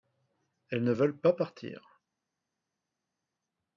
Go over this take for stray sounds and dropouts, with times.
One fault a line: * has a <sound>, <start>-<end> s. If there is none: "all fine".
all fine